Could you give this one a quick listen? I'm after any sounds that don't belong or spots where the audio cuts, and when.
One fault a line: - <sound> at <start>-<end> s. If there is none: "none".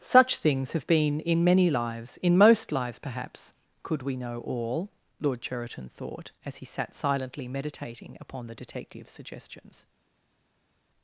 none